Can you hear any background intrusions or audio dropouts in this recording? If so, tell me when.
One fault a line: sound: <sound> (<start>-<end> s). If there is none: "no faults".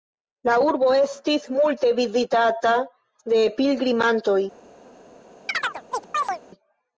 sound: chirp (5.5-6.4 s)